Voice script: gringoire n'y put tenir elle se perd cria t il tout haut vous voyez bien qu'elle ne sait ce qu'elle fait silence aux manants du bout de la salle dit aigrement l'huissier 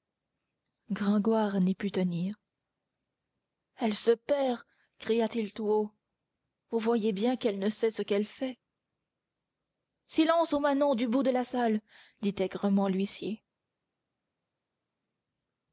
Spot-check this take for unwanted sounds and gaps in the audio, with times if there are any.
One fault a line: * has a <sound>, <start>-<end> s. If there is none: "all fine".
all fine